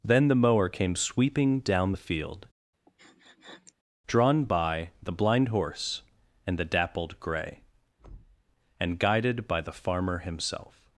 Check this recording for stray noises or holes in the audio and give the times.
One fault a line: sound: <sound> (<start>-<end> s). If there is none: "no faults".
sound: sniff (2.9-3.7 s)
sound: thud (8.0-8.4 s)